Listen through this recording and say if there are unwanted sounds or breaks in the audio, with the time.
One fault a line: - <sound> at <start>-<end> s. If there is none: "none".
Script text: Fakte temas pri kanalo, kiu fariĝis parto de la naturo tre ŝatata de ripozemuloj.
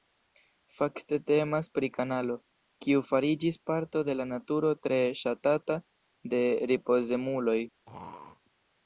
- throat clearing at 7.9-8.4 s